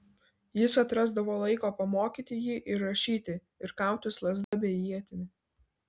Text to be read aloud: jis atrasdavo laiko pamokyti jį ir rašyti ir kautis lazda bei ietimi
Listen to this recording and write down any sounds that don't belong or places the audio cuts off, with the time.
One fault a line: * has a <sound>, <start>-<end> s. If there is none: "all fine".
* has a dropout, 4.4-4.5 s